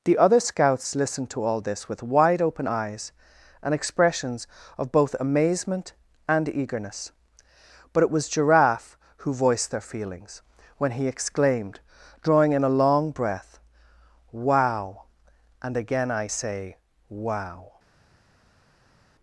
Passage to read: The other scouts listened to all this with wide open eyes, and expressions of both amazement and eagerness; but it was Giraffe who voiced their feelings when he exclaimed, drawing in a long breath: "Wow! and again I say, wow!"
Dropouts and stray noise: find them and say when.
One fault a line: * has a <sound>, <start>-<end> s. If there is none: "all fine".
all fine